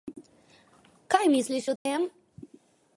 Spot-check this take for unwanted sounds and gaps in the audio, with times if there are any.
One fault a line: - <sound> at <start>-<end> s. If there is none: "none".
- dropout at 1.8-1.9 s